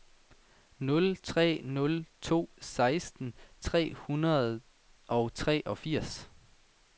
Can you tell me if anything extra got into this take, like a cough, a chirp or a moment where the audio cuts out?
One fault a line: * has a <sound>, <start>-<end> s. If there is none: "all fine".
all fine